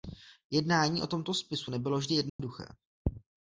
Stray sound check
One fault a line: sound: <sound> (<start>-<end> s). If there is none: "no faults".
sound: dropout (2.3-2.4 s)